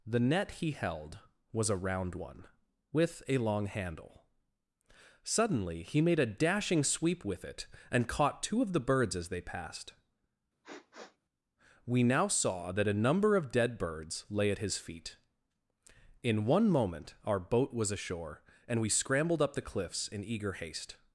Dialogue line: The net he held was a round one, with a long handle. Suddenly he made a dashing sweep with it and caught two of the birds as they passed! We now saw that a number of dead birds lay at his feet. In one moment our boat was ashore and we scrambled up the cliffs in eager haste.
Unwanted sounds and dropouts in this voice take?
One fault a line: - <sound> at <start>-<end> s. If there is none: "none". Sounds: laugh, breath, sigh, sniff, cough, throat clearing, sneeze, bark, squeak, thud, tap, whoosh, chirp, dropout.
- sniff at 10.6-11.2 s